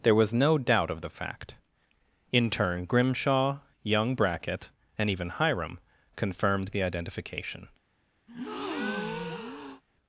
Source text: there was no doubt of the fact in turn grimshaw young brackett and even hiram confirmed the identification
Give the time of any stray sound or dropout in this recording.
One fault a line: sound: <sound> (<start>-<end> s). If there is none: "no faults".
sound: breath (8.3-9.8 s)